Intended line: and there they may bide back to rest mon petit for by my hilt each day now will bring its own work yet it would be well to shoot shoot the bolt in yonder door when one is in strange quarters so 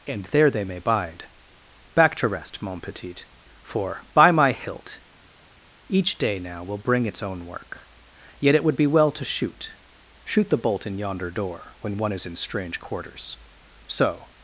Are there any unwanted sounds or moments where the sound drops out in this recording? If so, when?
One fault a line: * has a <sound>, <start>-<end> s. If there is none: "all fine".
all fine